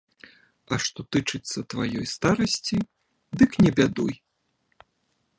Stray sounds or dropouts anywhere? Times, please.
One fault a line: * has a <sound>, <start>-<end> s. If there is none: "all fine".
all fine